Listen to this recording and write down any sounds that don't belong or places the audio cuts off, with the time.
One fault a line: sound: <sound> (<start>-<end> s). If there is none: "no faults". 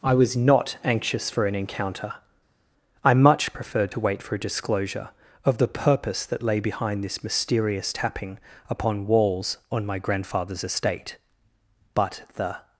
no faults